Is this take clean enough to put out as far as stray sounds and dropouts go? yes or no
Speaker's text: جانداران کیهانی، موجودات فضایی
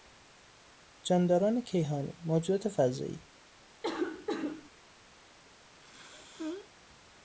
no